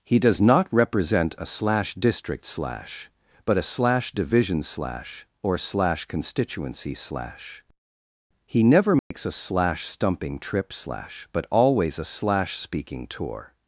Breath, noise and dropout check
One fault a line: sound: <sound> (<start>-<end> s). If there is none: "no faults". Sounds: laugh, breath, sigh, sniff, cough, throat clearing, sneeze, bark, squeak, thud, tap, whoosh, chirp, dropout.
sound: dropout (9.0-9.1 s)